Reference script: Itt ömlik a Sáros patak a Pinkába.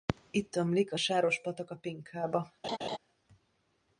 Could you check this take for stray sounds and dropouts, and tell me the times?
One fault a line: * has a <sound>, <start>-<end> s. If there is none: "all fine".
* has a laugh, 2.6-3.0 s